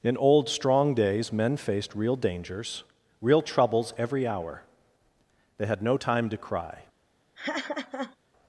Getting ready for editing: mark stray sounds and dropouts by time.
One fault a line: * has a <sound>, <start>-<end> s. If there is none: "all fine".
* has a laugh, 7.3-8.2 s